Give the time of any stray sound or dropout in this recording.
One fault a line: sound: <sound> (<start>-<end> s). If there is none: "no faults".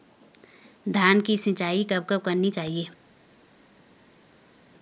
no faults